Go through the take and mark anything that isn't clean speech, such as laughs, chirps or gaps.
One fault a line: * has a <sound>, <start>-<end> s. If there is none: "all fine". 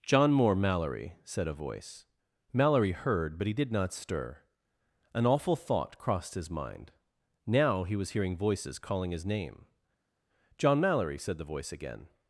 all fine